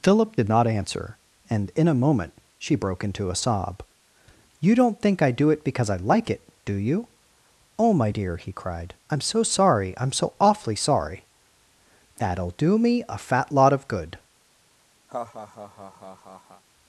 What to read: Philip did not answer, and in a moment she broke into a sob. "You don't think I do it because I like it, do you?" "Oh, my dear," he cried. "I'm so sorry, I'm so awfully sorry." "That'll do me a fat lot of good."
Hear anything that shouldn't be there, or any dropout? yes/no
yes